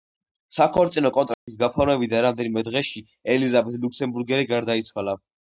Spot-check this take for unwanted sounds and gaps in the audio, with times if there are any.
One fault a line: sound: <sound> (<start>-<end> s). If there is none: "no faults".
sound: dropout (1.3-1.5 s)